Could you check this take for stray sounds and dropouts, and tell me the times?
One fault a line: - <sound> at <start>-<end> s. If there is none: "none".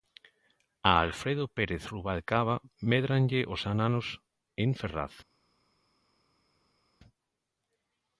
none